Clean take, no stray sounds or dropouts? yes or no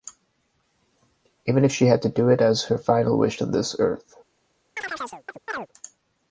no